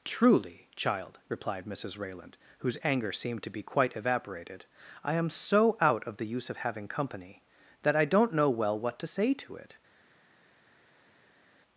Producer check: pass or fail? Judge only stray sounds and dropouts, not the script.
pass